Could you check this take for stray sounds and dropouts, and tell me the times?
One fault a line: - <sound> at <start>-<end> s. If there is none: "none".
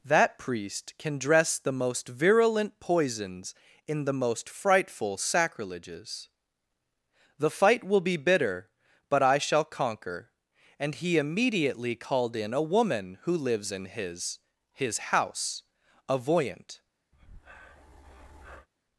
- breath at 17.1-18.7 s